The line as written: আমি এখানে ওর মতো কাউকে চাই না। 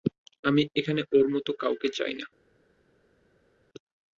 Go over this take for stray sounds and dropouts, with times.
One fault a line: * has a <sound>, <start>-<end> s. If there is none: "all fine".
all fine